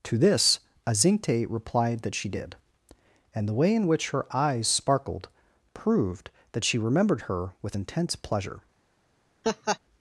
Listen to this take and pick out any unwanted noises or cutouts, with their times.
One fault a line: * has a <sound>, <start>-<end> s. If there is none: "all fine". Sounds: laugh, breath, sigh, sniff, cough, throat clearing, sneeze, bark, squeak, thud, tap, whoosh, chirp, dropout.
* has a laugh, 9.4-9.8 s